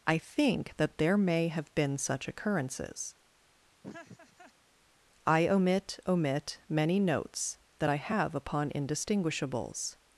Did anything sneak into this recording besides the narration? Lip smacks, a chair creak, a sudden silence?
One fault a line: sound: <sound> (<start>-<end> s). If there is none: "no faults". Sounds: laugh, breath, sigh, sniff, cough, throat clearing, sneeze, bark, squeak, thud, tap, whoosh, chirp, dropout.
sound: laugh (3.8-4.5 s)